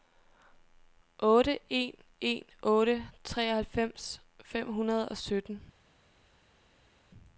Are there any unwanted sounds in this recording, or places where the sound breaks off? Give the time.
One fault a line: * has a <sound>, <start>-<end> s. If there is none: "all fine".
all fine